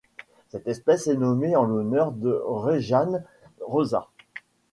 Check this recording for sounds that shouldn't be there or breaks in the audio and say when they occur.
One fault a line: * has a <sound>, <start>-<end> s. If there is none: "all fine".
all fine